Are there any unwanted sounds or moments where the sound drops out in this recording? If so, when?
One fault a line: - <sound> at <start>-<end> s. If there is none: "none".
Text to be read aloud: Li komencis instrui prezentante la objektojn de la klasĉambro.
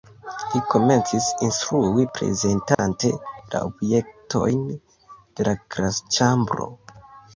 - dropout at 2.7-2.8 s